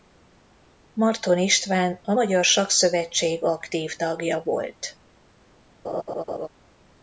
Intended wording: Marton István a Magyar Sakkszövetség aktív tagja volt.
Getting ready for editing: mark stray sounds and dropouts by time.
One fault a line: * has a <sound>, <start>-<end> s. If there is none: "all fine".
* has a laugh, 5.8-6.5 s